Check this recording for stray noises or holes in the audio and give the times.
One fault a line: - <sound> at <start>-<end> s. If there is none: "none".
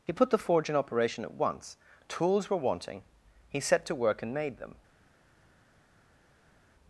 none